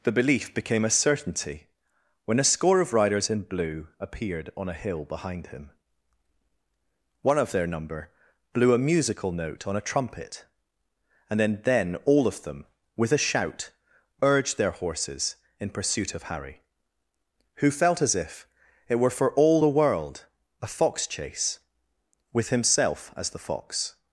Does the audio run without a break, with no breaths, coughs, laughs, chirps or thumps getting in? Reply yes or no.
yes